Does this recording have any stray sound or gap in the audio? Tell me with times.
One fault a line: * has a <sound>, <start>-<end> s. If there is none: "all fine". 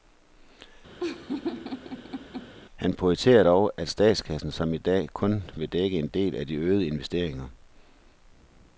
* has a laugh, 1.0-2.5 s